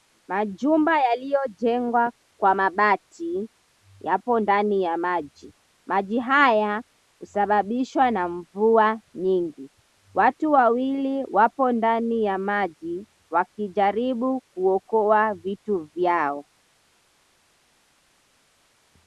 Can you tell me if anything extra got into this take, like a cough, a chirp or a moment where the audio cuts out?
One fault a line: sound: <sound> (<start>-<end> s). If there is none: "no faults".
no faults